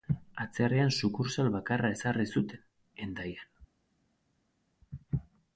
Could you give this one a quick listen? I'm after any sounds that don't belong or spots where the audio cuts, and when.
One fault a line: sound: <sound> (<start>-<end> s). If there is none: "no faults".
no faults